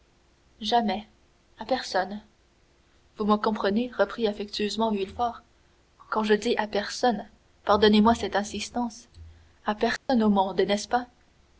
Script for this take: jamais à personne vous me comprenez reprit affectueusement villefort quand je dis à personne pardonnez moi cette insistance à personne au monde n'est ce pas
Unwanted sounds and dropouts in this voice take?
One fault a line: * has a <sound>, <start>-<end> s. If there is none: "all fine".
* has a dropout, 10.0-10.1 s